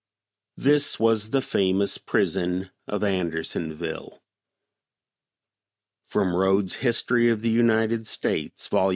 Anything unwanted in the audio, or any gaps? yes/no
no